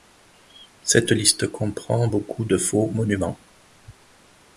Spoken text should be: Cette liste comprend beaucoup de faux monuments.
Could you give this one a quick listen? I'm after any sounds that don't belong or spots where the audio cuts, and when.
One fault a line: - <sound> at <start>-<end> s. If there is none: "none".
none